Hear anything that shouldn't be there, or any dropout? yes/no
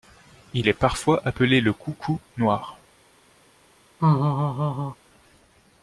yes